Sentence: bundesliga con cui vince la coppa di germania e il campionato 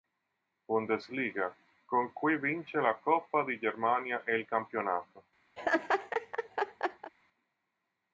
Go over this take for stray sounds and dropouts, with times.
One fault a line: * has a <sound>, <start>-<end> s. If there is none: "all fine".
* has a laugh, 5.6-7.1 s